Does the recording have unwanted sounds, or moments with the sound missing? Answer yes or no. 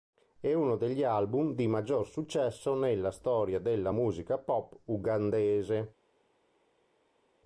no